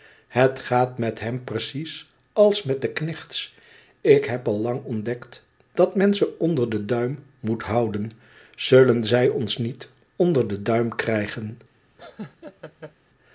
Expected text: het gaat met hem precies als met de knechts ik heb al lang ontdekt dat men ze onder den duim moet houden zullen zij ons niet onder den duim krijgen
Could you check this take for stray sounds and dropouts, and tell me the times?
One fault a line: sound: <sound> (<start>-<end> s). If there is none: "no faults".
sound: laugh (12.0-12.9 s)